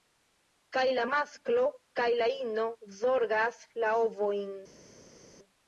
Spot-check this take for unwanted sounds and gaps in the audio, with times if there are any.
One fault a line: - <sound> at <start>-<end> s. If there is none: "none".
none